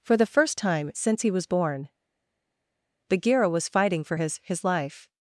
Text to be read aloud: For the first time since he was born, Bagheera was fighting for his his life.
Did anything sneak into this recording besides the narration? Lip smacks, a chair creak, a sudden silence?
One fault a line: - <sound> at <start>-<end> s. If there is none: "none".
none